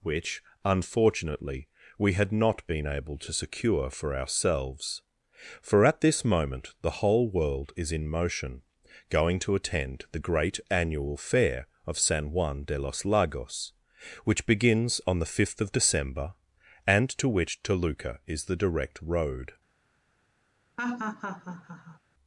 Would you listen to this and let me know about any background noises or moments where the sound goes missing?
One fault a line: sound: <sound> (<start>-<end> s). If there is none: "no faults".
sound: laugh (20.8-22.0 s)